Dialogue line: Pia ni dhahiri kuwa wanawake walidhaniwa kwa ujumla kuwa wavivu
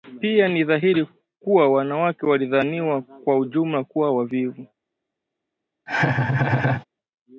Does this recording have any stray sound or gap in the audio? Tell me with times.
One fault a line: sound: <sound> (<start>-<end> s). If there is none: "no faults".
sound: laugh (5.9-6.8 s)